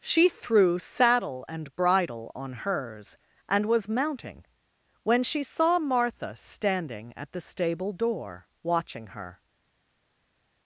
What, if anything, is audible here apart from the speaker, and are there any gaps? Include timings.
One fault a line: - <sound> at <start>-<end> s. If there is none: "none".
none